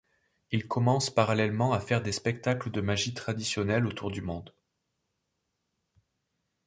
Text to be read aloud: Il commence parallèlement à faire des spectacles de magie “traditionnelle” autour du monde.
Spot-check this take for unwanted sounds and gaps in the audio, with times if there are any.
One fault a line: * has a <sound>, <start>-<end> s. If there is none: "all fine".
all fine